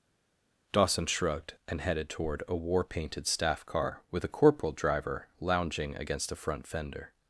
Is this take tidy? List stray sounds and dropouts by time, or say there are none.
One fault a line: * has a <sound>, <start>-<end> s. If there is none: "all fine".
all fine